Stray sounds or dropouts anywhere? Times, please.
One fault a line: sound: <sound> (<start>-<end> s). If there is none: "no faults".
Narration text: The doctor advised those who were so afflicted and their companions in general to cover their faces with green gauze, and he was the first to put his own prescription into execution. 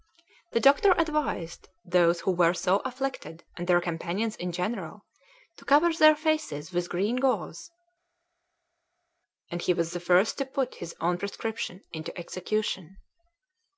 no faults